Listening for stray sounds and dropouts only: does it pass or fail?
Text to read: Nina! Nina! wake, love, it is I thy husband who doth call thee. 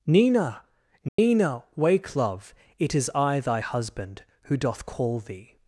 fail